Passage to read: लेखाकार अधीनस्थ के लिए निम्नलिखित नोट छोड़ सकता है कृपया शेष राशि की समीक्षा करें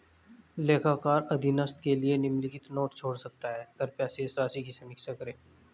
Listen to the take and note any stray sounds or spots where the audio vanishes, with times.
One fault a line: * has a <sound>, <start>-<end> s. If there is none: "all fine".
all fine